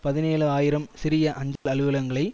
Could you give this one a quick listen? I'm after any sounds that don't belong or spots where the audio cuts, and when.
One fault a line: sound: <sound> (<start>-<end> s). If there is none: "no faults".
sound: dropout (1.6-1.7 s)